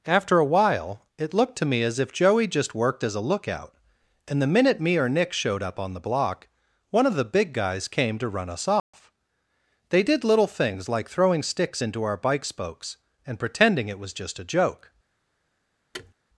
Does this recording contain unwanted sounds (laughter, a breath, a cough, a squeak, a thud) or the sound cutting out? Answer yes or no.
yes